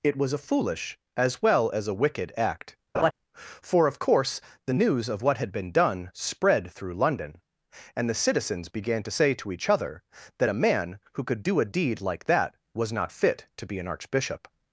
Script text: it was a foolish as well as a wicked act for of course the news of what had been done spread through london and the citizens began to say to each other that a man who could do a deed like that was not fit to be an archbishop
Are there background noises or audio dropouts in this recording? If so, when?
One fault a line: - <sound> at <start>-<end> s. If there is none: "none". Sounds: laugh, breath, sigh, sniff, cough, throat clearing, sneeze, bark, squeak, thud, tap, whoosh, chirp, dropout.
- laugh at 2.9-3.1 s